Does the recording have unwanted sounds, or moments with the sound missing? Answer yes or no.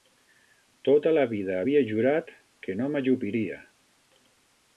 no